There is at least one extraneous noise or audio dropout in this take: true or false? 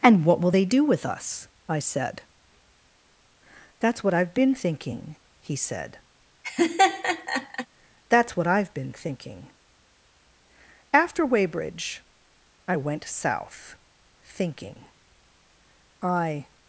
true